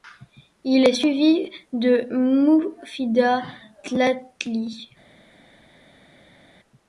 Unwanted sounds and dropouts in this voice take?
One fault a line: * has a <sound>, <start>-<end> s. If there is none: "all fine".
all fine